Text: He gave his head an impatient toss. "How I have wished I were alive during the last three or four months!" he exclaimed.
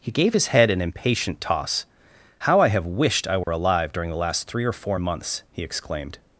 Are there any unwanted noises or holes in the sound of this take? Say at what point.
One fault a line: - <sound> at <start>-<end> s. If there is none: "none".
- dropout at 3.4-3.5 s